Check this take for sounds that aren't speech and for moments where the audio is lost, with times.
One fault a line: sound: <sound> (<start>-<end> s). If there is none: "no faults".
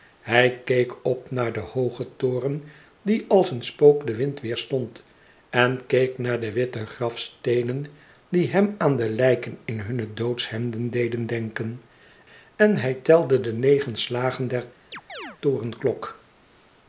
sound: chirp (14.9-15.4 s)